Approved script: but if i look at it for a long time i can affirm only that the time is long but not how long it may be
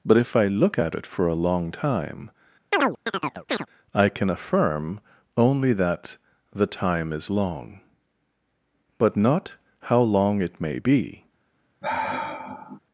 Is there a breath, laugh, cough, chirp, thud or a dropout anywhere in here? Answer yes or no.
yes